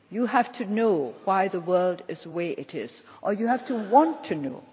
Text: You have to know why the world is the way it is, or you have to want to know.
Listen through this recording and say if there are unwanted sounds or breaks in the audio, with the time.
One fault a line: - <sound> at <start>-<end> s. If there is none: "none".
none